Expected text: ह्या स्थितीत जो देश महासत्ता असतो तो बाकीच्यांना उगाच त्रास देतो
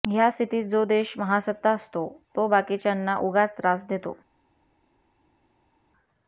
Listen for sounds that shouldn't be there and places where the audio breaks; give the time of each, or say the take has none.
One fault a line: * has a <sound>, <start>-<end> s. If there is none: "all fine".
all fine